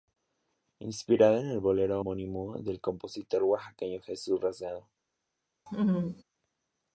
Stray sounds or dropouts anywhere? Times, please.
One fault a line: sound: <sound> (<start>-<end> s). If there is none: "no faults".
sound: laugh (5.7-6.2 s)